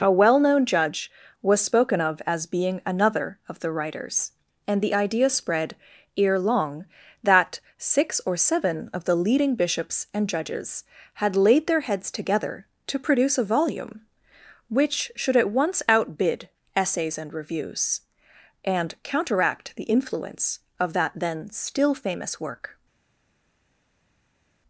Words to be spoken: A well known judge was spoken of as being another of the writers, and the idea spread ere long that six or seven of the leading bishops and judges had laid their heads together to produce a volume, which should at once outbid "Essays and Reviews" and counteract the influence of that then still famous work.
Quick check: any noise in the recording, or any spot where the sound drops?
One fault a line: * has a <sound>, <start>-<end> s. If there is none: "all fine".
all fine